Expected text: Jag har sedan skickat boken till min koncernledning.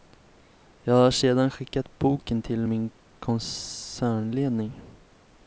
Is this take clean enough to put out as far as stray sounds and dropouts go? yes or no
yes